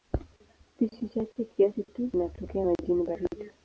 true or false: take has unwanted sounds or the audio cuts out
false